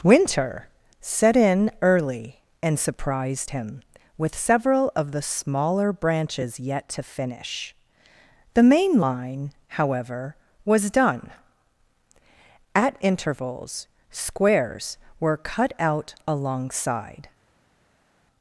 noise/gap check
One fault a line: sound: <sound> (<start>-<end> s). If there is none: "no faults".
no faults